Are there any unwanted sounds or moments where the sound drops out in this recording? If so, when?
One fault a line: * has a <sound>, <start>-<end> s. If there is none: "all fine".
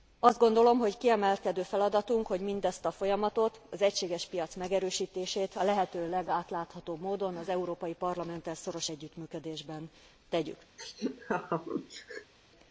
* has a laugh, 10.8-12.3 s